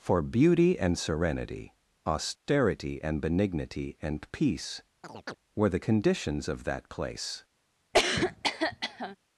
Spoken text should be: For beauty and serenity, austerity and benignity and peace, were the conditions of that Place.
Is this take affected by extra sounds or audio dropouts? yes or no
yes